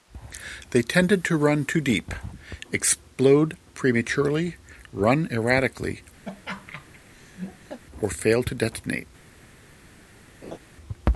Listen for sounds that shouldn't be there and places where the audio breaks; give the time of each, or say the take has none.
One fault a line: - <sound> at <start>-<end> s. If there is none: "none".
- laugh at 6.2-7.8 s
- laugh at 10.4-10.6 s